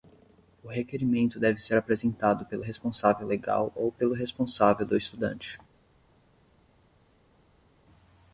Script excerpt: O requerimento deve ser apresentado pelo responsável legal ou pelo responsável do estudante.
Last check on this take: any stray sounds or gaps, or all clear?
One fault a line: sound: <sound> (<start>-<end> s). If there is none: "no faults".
no faults